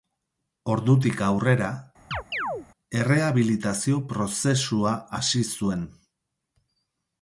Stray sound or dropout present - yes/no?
yes